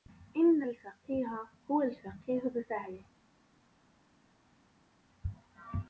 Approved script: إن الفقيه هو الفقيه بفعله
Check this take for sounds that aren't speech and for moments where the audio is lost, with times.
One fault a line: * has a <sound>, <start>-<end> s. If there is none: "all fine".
all fine